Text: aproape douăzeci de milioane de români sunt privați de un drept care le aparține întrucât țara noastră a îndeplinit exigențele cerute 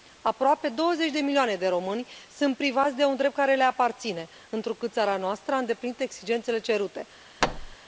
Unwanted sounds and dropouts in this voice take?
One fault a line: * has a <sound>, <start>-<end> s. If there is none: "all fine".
* has a thud, 7.4-7.8 s